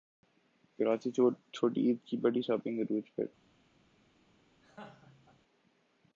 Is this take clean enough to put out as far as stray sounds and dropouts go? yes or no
no